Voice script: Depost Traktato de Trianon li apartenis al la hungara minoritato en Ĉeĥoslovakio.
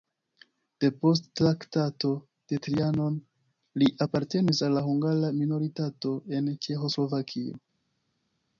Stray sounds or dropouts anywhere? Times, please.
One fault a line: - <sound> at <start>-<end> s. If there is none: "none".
none